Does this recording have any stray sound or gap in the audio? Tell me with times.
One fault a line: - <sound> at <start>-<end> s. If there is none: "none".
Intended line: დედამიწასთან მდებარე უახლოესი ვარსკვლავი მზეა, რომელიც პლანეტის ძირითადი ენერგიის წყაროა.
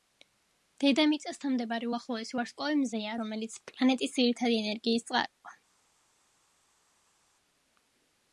none